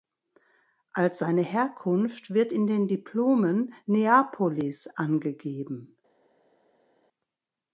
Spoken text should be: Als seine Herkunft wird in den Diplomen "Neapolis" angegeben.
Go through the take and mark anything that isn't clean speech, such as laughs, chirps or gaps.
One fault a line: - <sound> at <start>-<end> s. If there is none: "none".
none